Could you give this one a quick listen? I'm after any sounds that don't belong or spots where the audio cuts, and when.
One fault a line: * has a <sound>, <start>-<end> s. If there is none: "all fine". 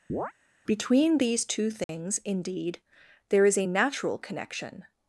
* has a chirp, 0.1-0.3 s
* has a dropout, 1.8-1.9 s